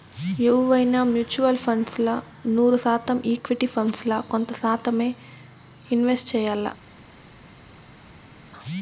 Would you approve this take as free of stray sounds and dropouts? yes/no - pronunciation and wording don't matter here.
yes